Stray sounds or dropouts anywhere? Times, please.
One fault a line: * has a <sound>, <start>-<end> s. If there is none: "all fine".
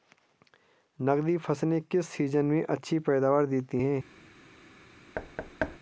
* has a thud, 5.1-5.8 s